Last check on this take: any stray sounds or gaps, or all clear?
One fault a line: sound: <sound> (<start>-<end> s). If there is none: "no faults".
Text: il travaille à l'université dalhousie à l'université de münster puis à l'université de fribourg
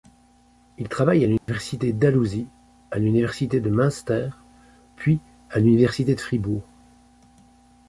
sound: dropout (1.4-1.5 s)